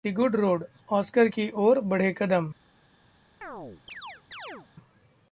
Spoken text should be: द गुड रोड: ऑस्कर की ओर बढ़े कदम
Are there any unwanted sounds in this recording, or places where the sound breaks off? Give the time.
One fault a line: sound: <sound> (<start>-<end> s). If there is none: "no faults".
sound: chirp (3.4-4.7 s)